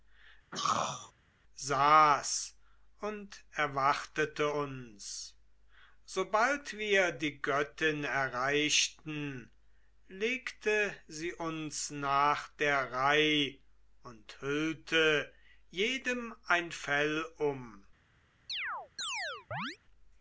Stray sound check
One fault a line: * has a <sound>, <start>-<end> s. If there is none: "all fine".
* has a throat clearing, 0.5-1.1 s
* has a chirp, 18.5-19.8 s